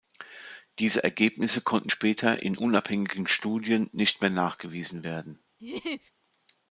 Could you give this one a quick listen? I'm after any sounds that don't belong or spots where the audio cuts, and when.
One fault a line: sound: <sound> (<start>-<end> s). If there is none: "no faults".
sound: laugh (5.6-6.1 s)